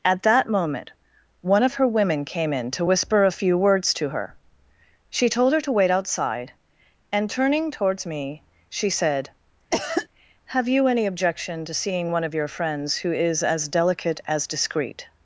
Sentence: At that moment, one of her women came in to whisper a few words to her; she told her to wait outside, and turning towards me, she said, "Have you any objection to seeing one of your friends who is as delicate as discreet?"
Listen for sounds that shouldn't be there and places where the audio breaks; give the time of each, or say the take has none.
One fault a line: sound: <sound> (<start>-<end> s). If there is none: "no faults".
sound: cough (9.7-10.1 s)